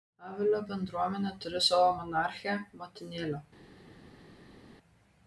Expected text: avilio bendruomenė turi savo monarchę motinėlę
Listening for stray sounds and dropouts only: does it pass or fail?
pass